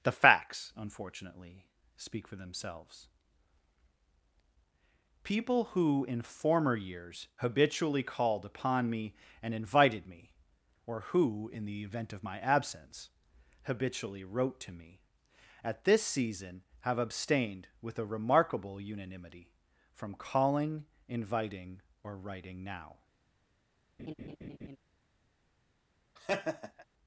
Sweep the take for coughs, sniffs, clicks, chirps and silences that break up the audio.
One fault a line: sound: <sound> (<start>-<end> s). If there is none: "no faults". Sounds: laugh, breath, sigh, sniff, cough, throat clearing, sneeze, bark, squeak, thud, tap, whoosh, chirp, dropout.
sound: laugh (24.0-24.8 s)
sound: laugh (26.2-26.9 s)